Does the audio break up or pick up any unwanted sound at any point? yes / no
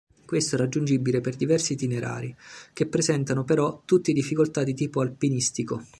no